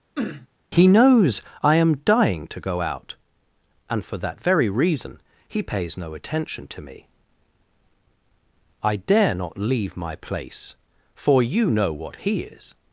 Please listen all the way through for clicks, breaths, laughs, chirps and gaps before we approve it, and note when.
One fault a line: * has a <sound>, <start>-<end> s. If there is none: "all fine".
* has a sniff, 0.2-0.5 s